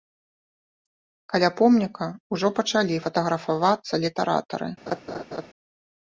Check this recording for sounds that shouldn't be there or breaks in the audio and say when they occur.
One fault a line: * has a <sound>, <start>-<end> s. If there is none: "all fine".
* has a laugh, 4.9-5.5 s